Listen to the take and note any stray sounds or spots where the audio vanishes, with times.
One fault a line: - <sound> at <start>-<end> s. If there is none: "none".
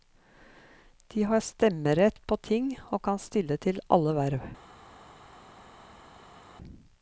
none